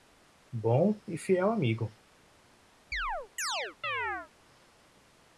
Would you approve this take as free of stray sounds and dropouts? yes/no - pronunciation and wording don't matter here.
no